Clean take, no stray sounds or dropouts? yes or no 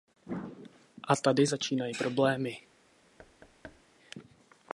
no